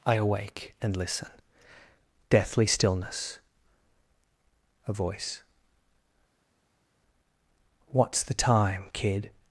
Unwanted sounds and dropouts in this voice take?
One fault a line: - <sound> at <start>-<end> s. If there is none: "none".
none